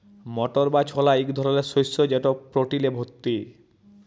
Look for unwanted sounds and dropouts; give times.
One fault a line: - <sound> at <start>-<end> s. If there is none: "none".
none